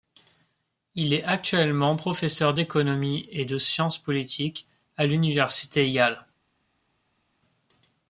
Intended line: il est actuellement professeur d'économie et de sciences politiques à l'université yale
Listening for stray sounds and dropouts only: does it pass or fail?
pass